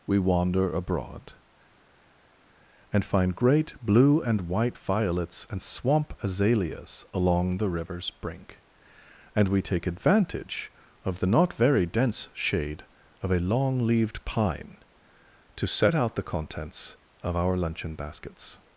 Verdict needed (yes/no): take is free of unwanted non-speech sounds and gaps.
yes